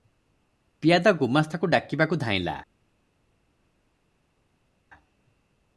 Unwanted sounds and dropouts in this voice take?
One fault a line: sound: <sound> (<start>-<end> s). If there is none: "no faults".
no faults